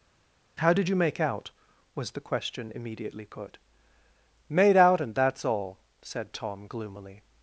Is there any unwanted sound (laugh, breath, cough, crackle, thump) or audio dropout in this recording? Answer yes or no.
no